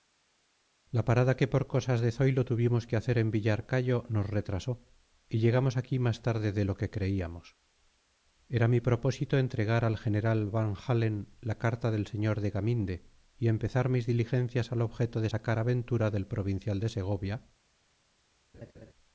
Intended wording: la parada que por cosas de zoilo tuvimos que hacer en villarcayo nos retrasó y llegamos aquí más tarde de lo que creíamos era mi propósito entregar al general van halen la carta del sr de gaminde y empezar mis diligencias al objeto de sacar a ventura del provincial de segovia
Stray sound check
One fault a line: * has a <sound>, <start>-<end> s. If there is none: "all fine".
* has a laugh, 18.5-18.9 s